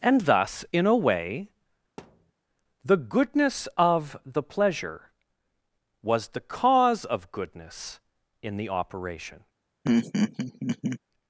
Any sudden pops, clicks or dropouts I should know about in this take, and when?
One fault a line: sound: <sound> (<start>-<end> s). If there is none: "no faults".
sound: thud (2.0-2.3 s)
sound: laugh (9.8-11.0 s)